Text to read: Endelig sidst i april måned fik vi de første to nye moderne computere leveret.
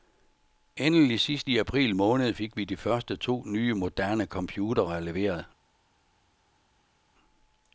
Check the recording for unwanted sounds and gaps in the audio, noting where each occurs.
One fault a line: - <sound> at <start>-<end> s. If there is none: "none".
none